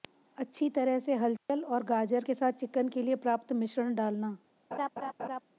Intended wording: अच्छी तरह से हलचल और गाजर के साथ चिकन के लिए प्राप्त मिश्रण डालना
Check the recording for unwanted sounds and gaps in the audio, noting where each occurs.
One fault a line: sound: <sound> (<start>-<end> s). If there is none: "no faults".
sound: dropout (1.4-1.5 s)
sound: laugh (4.7-5.4 s)